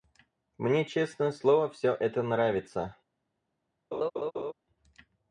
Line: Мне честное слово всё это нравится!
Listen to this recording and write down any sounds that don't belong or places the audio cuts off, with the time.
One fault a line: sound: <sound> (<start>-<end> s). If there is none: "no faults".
sound: laugh (3.9-4.5 s)